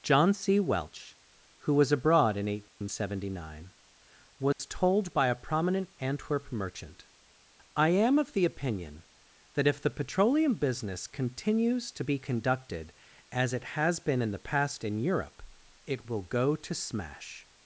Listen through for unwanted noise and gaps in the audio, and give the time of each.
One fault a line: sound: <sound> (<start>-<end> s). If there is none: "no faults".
sound: dropout (2.7-2.8 s)
sound: dropout (4.5-4.6 s)